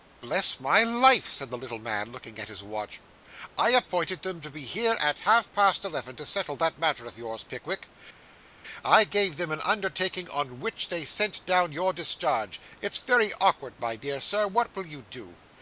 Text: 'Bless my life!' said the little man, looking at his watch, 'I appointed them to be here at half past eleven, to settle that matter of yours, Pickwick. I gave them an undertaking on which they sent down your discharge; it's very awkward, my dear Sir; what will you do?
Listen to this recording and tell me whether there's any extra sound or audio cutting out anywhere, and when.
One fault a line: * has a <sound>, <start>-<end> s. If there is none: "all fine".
all fine